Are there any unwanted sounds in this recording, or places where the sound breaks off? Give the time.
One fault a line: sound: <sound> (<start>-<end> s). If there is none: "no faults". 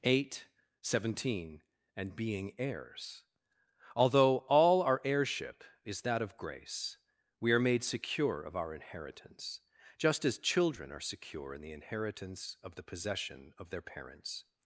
no faults